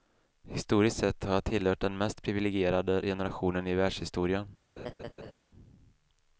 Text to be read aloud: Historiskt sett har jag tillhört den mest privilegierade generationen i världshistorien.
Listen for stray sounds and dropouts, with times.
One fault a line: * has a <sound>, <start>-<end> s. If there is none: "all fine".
* has a laugh, 4.8-5.3 s